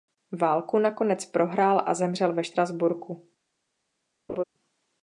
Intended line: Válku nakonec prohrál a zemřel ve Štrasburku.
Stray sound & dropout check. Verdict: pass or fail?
fail